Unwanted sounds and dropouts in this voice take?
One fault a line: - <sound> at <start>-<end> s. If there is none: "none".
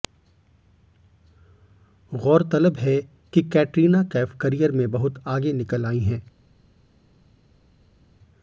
none